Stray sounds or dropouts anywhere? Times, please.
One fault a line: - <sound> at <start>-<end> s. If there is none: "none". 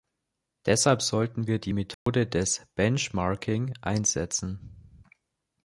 - dropout at 1.9-2.1 s